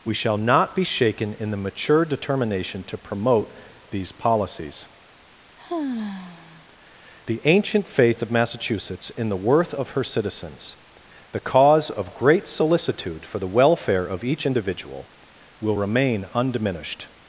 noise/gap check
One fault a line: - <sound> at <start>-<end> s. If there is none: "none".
- sigh at 5.6-6.7 s